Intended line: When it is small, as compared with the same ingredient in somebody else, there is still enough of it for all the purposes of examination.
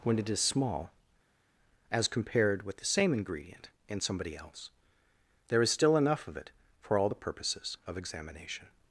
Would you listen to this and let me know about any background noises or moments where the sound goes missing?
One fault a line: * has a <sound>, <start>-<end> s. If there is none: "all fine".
all fine